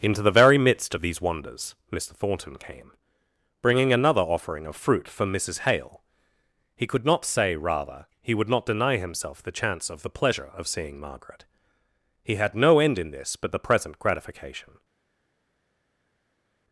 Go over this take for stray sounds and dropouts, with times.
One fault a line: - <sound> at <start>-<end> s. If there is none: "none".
none